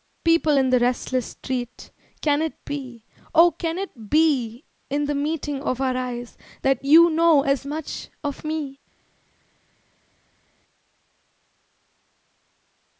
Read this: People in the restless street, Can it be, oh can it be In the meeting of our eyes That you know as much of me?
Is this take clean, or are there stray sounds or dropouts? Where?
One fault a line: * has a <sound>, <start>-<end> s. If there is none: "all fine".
all fine